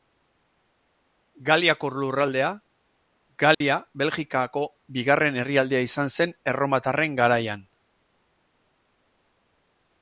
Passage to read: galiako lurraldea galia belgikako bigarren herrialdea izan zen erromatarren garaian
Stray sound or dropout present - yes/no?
yes